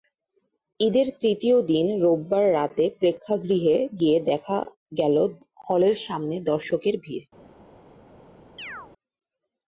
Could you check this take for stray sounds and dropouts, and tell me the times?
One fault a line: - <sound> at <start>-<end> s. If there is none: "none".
- chirp at 8.6-8.9 s